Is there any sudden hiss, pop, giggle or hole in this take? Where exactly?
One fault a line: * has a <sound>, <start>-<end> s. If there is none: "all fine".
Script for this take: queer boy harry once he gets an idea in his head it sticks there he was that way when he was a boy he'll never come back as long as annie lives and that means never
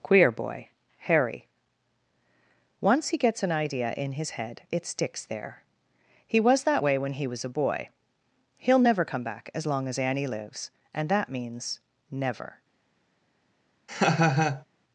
* has a laugh, 13.9-14.7 s